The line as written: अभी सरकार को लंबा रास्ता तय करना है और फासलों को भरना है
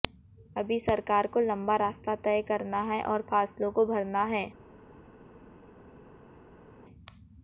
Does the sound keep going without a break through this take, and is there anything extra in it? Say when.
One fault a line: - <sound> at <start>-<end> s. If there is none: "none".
none